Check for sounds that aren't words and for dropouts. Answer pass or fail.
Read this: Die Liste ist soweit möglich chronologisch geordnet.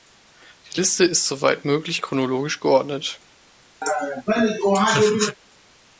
fail